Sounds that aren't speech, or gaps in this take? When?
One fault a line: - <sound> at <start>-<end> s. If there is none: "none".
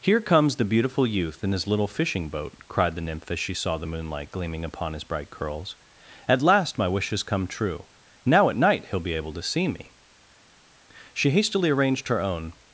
none